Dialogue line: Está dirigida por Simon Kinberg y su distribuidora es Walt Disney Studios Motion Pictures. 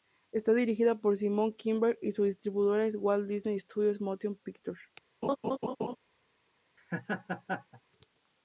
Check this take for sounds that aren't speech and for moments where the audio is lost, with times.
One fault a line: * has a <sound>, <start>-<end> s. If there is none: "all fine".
* has a laugh, 5.2-6.0 s
* has a laugh, 6.8-7.8 s